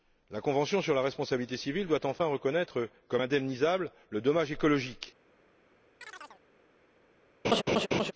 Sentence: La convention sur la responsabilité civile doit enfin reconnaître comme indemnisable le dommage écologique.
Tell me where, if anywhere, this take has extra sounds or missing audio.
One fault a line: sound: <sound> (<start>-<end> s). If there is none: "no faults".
sound: chirp (6.0-6.4 s)
sound: laugh (7.4-8.1 s)